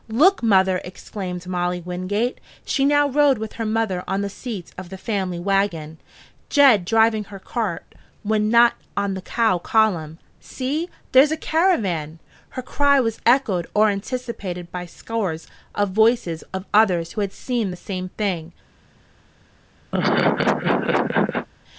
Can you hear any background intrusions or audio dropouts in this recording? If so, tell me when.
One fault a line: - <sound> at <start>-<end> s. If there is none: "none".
- laugh at 19.9-21.5 s